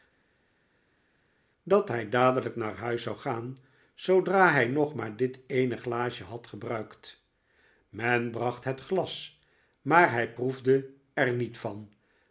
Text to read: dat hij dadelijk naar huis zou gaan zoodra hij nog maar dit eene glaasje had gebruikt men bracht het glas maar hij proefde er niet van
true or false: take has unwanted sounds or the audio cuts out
false